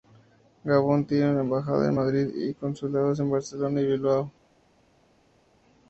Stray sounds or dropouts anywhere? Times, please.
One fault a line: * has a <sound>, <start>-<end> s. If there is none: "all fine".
all fine